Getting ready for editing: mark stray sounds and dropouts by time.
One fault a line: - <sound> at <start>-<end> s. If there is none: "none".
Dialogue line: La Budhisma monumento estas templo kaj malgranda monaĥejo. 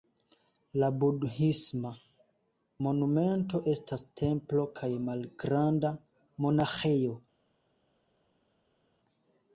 none